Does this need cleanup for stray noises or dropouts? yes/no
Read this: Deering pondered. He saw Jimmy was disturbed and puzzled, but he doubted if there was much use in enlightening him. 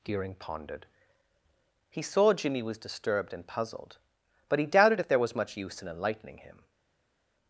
no